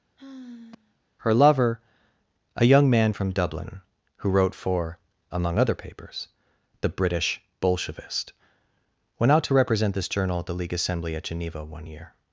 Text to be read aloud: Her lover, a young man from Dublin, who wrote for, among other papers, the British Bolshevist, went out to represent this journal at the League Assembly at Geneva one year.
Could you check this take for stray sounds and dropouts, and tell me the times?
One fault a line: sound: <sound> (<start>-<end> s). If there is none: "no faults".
sound: sigh (0.2-1.0 s)